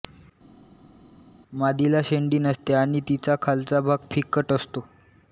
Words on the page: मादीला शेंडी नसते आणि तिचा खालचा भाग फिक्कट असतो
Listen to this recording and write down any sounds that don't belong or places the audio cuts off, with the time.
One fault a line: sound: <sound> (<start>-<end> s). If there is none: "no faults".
no faults